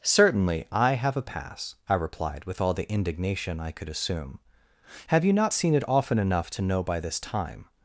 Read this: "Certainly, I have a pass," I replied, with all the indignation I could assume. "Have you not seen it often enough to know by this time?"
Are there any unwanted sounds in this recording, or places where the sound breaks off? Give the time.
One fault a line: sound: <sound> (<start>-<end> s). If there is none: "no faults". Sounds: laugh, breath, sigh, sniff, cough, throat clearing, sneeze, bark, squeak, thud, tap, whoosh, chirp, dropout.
no faults